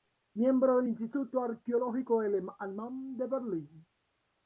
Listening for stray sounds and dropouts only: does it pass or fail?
pass